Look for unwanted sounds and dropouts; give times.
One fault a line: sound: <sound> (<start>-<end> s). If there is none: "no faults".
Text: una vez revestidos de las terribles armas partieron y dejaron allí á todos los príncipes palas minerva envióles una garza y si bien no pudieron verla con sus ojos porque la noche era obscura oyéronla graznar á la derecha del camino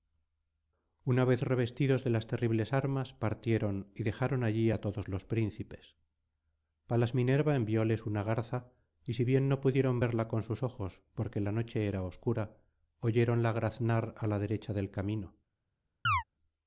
sound: chirp (16.1-16.2 s)